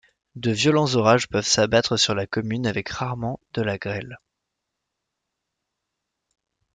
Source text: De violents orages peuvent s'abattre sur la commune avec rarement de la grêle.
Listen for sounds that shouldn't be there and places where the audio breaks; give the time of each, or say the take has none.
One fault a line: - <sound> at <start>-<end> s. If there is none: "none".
none